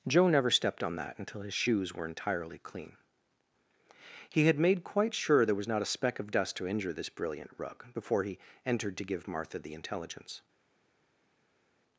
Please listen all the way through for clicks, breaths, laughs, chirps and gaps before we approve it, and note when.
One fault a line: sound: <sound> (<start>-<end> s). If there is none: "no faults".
no faults